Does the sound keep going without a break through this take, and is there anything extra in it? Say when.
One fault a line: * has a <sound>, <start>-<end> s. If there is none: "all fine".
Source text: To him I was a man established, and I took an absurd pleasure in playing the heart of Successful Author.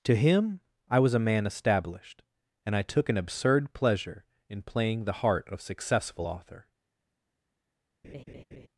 * has a laugh, 8.0-8.7 s